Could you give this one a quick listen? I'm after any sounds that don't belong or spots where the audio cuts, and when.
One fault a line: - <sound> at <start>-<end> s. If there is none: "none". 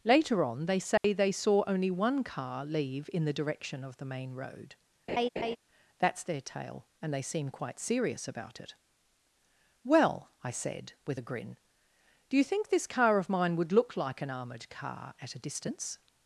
- dropout at 1.0-1.0 s
- laugh at 5.1-5.6 s